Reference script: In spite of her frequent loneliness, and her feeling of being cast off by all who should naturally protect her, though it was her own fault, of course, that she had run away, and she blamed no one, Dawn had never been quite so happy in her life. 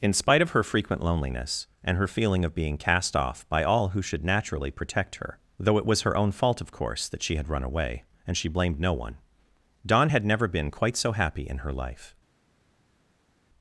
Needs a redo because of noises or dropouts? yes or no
no